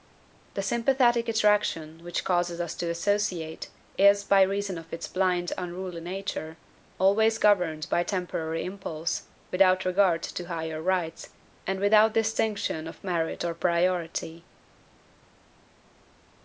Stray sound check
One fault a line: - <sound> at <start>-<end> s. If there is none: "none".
none